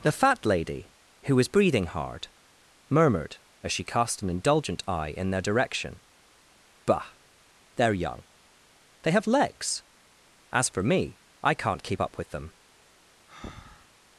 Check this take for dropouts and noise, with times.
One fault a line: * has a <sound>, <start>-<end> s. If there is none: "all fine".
* has a breath, 13.3-13.9 s